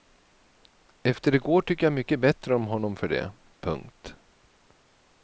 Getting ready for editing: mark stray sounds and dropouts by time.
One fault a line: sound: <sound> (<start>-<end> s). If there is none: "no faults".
no faults